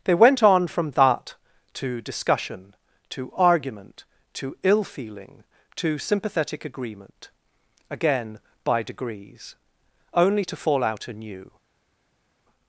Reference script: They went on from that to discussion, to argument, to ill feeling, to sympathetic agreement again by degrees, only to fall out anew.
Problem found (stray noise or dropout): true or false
false